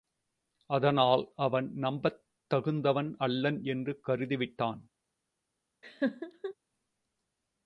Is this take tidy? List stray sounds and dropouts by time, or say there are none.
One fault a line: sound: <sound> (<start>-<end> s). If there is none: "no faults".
sound: laugh (5.8-6.5 s)